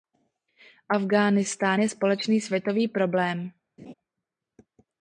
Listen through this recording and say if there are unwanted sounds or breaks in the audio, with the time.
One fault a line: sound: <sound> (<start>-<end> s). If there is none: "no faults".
sound: laugh (3.8-3.9 s)